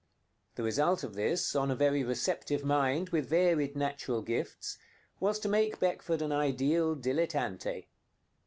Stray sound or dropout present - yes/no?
no